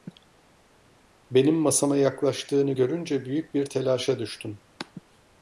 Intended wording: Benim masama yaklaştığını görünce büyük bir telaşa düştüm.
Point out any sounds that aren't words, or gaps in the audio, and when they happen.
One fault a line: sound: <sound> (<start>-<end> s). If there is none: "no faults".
no faults